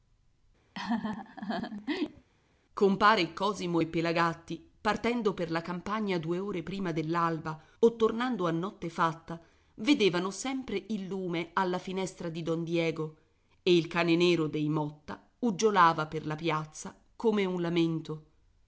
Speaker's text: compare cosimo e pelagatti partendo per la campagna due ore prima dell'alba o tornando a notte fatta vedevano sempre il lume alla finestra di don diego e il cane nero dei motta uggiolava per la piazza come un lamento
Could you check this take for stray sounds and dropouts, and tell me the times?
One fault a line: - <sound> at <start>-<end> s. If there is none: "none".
- laugh at 0.7-2.3 s